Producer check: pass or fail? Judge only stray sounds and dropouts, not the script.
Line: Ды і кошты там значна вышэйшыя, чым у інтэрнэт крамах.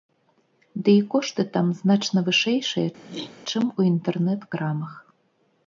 fail